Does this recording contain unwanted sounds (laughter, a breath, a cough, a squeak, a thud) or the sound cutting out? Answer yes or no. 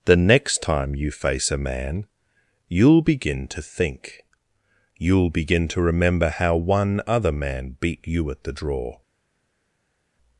no